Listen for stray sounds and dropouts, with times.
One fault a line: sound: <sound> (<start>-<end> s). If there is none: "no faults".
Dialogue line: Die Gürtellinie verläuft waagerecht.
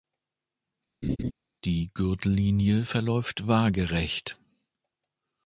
sound: laugh (1.0-1.3 s)